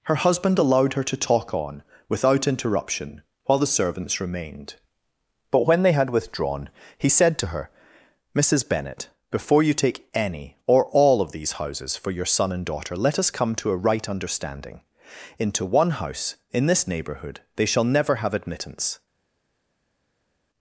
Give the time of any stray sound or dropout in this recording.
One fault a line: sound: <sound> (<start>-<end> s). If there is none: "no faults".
no faults